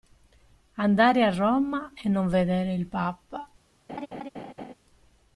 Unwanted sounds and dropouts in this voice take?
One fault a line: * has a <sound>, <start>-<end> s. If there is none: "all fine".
* has a laugh, 3.9-4.7 s